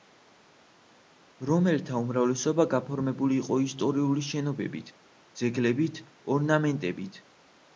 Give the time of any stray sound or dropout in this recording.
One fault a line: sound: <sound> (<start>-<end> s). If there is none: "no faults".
no faults